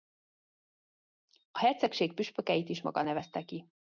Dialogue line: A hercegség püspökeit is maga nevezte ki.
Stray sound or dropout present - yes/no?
no